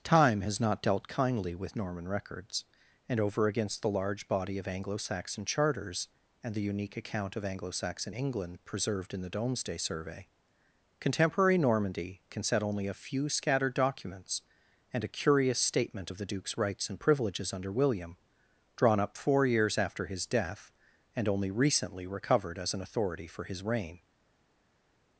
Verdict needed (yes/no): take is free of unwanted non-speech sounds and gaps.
yes